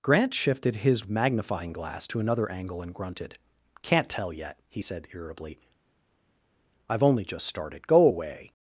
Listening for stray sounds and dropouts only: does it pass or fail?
pass